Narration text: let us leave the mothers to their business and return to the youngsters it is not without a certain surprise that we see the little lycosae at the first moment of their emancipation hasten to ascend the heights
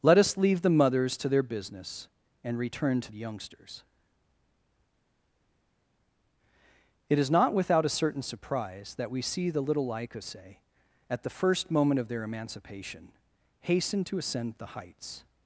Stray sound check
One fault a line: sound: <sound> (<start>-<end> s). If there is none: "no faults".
no faults